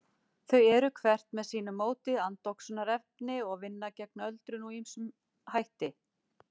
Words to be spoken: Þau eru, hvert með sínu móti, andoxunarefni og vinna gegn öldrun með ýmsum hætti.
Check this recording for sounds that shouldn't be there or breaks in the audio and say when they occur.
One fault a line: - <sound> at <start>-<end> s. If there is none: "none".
none